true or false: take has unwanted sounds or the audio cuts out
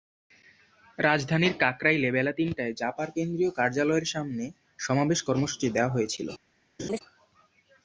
true